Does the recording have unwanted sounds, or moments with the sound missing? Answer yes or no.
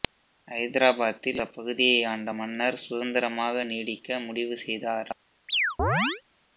yes